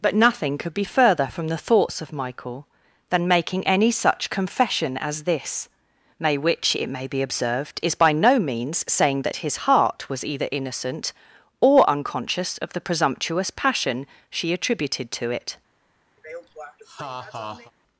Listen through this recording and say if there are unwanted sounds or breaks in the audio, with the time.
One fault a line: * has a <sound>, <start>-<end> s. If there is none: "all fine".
* has a laugh, 16.2-17.7 s